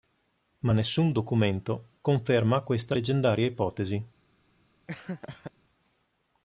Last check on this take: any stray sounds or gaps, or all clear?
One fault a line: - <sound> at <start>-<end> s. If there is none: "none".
- laugh at 4.9-5.5 s